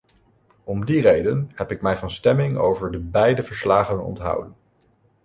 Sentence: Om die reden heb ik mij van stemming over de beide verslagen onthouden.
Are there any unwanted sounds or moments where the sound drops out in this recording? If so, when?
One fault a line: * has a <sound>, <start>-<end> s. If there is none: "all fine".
all fine